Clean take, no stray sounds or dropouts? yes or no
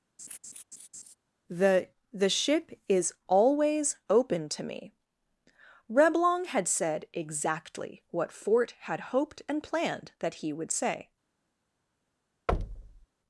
no